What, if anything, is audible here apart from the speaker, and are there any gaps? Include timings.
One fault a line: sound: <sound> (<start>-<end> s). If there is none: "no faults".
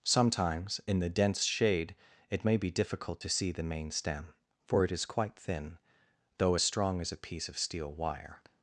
no faults